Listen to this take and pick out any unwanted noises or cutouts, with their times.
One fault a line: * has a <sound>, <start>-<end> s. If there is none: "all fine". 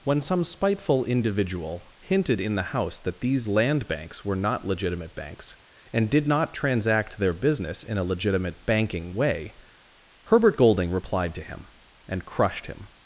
all fine